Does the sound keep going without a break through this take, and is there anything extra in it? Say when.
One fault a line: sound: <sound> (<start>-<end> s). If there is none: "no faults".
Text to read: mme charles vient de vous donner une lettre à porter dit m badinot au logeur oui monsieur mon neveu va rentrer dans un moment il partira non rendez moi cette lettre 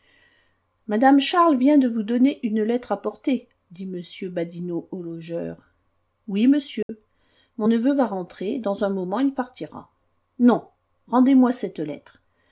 sound: dropout (6.8-6.9 s)